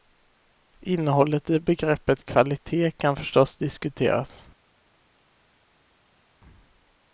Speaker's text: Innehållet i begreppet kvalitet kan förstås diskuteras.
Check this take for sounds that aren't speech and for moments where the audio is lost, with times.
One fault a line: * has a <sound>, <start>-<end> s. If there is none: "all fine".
all fine